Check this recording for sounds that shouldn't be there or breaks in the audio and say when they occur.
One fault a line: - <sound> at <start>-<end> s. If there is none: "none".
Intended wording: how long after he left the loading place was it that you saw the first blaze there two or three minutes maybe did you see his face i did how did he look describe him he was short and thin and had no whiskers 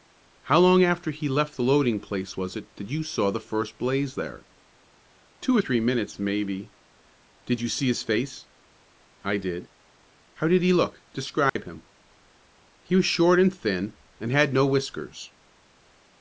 - dropout at 11.5-11.6 s